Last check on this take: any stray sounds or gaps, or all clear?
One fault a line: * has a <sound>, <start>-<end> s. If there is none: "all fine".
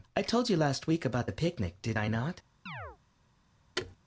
* has a chirp, 2.7-3.0 s
* has a thud, 3.8-4.0 s